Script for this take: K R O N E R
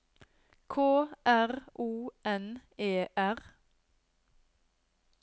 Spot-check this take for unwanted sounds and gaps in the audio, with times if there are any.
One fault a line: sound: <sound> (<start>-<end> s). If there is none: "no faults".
no faults